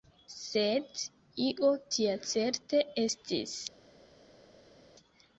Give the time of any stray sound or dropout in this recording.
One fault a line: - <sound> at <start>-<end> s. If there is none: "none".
none